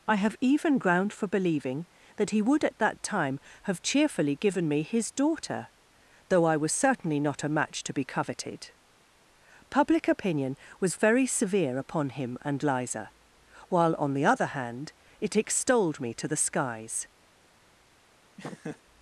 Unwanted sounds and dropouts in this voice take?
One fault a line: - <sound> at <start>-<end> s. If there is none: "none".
- laugh at 18.4-18.8 s